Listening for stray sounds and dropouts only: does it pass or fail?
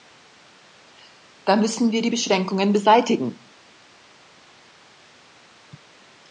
pass